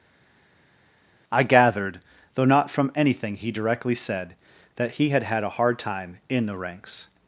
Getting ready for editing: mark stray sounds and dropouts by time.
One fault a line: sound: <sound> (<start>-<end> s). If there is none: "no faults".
no faults